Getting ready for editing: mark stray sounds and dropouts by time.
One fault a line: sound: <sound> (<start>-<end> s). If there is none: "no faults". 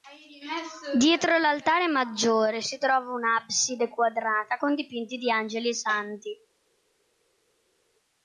no faults